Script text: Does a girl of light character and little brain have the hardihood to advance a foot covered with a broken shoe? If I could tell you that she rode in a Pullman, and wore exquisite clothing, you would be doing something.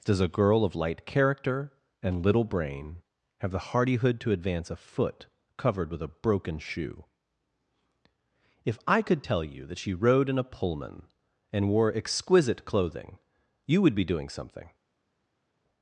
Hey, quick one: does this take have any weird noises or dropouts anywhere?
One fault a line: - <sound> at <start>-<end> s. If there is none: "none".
none